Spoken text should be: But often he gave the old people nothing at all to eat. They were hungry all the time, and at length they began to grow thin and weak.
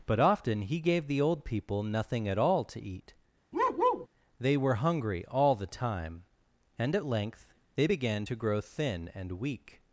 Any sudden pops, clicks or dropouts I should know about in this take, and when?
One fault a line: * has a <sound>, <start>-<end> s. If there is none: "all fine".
* has a bark, 3.5-4.1 s